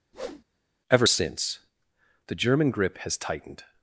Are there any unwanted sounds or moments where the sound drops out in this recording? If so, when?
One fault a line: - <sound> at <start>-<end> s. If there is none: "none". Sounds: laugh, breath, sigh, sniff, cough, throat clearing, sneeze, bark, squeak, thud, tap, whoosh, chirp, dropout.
- whoosh at 0.1-0.4 s